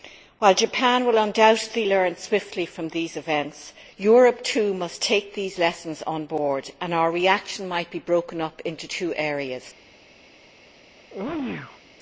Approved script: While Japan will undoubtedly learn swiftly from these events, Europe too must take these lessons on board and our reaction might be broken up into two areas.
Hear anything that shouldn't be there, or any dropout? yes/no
yes